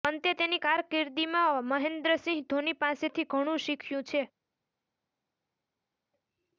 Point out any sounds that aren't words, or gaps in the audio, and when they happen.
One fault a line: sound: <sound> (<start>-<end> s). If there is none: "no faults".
no faults